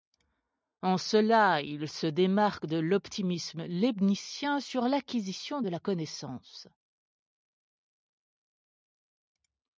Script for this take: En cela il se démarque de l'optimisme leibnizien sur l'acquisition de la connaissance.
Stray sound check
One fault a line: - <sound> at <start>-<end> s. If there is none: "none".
none